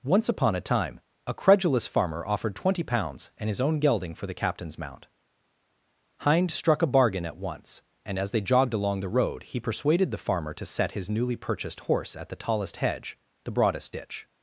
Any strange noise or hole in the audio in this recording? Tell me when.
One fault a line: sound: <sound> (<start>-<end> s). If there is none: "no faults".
no faults